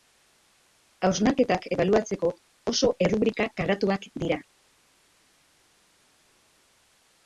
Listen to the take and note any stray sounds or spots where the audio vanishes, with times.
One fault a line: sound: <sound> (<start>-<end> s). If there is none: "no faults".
no faults